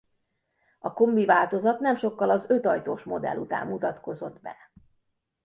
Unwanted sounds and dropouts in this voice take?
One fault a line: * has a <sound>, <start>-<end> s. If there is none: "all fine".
all fine